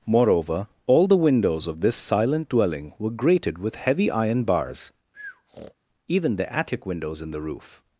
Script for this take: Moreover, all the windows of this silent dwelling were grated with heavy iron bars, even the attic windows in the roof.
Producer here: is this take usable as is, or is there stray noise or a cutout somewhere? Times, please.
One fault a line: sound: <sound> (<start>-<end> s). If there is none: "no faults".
sound: breath (5.1-5.7 s)